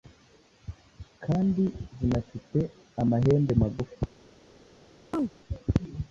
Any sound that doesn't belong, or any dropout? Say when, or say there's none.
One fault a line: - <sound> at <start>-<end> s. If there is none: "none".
- chirp at 5.1-5.3 s